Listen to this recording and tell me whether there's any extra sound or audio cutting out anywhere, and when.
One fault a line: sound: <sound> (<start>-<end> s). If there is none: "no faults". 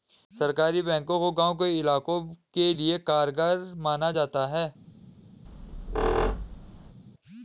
sound: squeak (5.4-7.0 s)